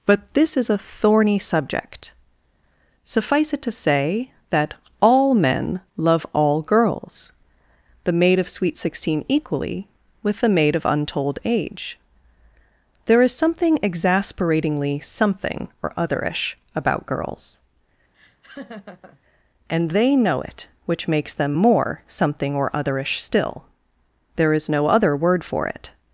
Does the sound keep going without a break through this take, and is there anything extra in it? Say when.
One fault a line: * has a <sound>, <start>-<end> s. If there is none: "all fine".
* has a laugh, 18.1-19.2 s